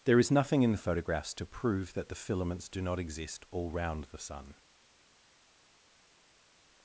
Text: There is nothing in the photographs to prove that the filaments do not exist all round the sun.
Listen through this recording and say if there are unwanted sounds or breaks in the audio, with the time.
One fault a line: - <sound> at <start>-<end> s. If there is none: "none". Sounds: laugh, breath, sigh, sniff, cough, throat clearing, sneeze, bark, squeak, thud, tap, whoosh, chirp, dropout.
none